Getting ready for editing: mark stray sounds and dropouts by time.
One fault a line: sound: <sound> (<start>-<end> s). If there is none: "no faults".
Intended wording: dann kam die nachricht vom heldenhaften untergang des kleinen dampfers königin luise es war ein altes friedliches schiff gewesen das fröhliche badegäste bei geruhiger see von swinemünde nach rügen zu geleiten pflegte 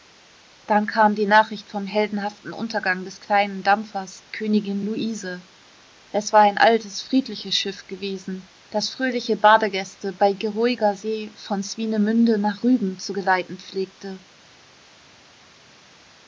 no faults